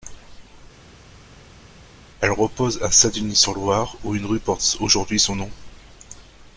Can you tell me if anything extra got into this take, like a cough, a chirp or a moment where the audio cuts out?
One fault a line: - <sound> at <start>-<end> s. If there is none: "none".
none